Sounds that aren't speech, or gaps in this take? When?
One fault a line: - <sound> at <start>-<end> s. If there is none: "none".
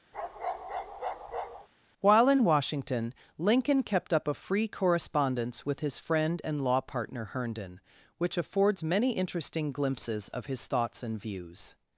- bark at 0.1-1.7 s